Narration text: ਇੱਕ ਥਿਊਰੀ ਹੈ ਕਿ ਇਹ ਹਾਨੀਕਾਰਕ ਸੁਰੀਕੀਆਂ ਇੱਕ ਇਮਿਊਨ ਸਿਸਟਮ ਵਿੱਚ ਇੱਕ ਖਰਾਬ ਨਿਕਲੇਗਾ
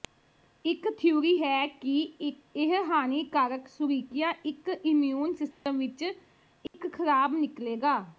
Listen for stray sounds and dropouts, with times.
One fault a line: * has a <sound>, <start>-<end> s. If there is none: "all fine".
* has a dropout, 5.5-5.7 s
* has a dropout, 6.7-6.7 s